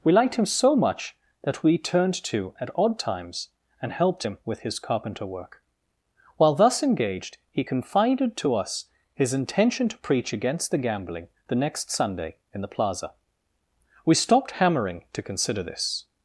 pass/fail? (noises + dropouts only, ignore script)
pass